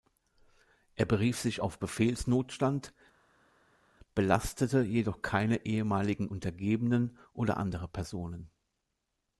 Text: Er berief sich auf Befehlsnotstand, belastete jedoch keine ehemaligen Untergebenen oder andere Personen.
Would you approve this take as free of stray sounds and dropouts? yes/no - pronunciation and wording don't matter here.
yes